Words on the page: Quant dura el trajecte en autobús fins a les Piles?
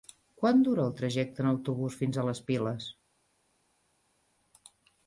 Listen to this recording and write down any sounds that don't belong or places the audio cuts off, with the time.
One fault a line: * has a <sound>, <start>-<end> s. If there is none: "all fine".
all fine